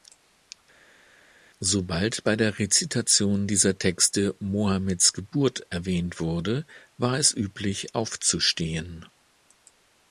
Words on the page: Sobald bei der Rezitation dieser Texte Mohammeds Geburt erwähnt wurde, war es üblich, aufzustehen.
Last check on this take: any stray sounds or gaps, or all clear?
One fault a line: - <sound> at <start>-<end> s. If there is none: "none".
none